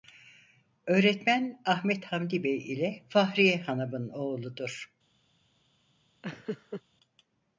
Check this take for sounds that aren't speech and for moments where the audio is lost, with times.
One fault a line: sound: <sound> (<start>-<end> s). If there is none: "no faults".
sound: laugh (6.2-6.8 s)